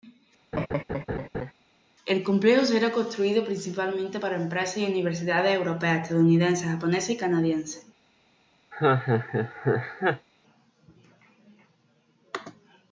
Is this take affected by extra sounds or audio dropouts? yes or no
yes